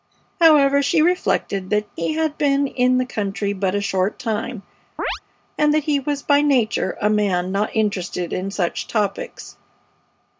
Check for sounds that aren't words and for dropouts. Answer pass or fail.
fail